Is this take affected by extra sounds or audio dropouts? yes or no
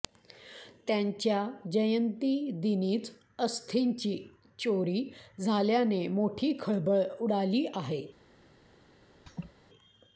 yes